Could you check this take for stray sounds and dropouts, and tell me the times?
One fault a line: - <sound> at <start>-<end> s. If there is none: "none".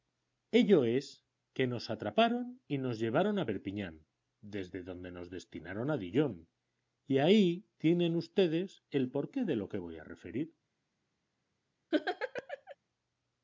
- laugh at 11.9-12.8 s